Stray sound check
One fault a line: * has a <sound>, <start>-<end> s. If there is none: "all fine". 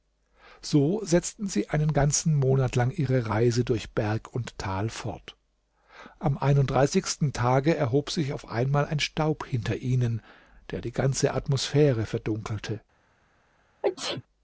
* has a sneeze, 13.8-14.2 s